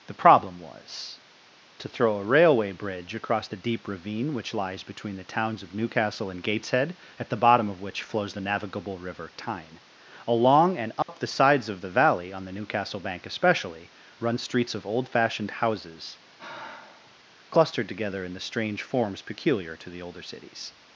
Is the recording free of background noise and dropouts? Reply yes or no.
no